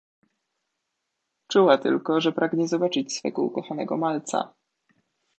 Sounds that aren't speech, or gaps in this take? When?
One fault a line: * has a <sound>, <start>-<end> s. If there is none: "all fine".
all fine